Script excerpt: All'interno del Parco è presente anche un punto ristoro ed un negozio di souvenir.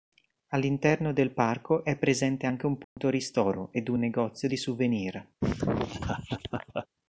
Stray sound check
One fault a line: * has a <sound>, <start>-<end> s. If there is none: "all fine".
* has a dropout, 2.8-3.0 s
* has a laugh, 5.4-6.9 s